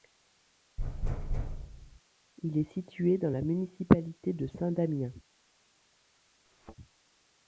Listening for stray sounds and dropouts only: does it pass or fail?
fail